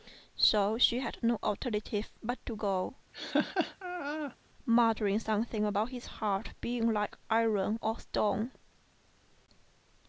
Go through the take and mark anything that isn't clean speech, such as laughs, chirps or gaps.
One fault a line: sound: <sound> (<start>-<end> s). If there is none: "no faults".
sound: laugh (3.1-4.4 s)